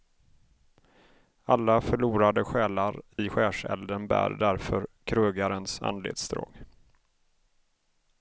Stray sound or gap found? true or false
true